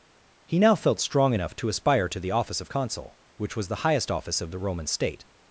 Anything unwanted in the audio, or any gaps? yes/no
no